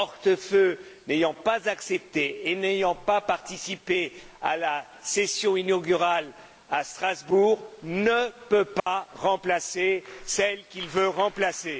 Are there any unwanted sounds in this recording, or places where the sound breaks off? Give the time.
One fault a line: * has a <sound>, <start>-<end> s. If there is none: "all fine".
* has a dropout, 8.8-8.9 s